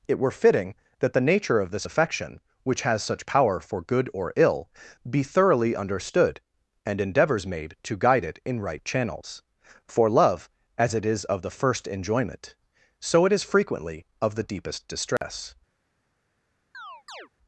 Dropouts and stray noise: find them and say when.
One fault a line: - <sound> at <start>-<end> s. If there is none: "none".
- dropout at 15.2-15.2 s
- chirp at 16.7-17.3 s